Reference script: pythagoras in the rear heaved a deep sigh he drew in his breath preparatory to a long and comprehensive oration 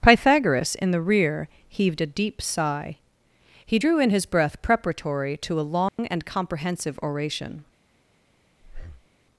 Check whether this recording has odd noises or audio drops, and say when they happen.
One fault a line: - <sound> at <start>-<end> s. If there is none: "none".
- dropout at 5.9-6.0 s
- breath at 8.6-9.1 s